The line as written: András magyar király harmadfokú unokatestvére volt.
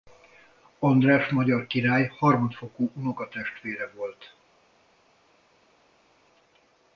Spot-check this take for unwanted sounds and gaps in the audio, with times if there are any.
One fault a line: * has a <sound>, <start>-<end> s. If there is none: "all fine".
all fine